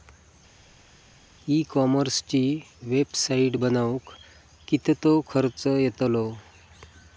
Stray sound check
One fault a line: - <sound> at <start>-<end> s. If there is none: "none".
none